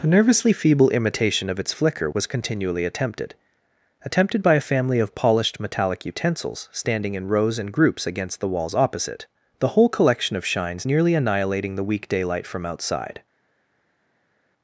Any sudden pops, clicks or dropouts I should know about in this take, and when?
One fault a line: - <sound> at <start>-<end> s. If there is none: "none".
none